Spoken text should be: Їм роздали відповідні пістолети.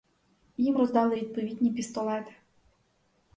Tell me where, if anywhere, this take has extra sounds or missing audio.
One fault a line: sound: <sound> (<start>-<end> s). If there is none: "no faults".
no faults